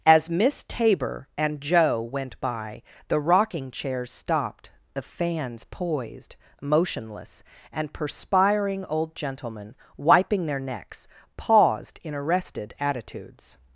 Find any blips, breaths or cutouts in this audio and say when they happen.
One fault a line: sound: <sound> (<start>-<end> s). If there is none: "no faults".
no faults